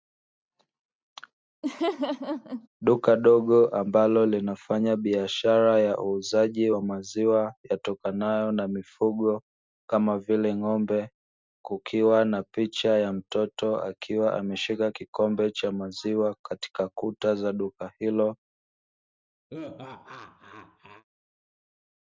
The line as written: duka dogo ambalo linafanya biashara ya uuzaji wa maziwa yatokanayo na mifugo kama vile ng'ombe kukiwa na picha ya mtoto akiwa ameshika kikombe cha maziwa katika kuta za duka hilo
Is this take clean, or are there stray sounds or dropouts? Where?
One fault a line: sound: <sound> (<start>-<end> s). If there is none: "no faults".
sound: laugh (1.6-2.7 s)
sound: laugh (19.5-21.0 s)